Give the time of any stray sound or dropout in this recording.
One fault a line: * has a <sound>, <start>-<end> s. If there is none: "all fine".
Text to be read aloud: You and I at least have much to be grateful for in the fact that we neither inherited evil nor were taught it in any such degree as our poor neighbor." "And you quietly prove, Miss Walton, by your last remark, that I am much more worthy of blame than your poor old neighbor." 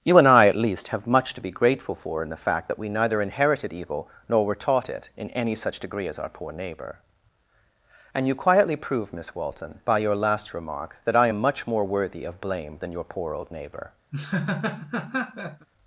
* has a laugh, 14.1-15.7 s